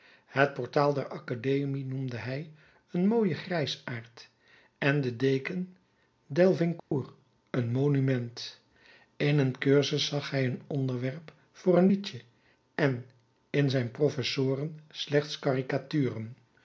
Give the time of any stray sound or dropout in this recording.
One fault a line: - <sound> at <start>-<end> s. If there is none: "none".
- dropout at 6.8-6.9 s